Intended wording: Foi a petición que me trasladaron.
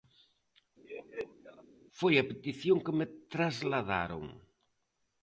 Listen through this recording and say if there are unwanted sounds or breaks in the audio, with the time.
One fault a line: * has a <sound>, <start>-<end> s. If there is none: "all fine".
* has a laugh, 0.8-1.6 s